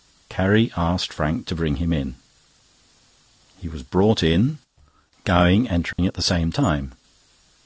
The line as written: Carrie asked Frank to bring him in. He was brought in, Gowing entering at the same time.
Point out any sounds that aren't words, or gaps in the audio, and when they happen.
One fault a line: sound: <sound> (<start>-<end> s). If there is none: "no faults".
sound: dropout (5.9-6.0 s)